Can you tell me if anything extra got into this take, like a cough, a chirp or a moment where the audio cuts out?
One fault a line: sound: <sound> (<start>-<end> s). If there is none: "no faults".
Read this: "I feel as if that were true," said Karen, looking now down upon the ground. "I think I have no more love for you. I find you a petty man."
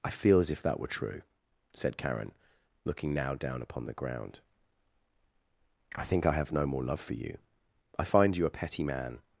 no faults